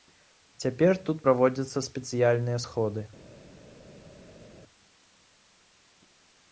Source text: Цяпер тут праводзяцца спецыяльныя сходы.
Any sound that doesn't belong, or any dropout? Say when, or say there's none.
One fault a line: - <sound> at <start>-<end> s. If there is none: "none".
none